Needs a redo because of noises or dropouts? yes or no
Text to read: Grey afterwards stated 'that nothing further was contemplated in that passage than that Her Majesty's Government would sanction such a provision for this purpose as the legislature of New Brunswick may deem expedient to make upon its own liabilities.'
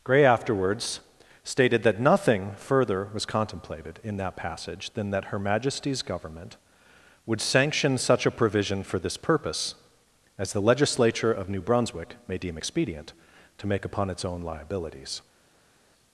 no